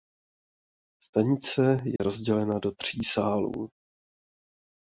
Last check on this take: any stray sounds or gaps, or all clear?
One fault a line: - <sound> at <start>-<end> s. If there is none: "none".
- dropout at 2.0-2.0 s